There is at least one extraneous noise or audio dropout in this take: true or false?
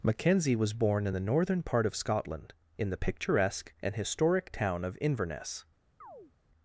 true